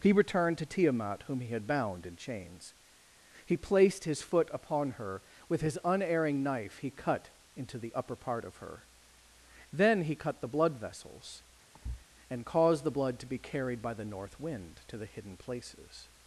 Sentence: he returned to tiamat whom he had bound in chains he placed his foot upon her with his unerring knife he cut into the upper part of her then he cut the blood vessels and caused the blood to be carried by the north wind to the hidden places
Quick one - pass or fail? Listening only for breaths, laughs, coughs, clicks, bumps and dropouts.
fail